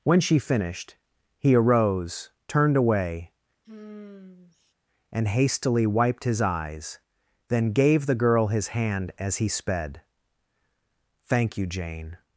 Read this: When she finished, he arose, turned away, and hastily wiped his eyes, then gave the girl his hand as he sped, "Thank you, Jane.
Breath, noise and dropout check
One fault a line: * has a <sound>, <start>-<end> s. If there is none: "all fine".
* has a sigh, 3.6-4.7 s